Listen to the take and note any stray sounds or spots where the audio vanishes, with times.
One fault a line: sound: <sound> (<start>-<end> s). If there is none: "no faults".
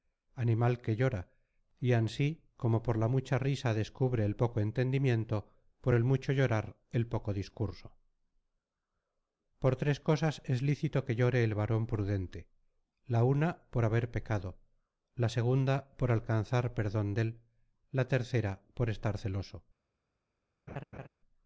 sound: laugh (20.7-21.1 s)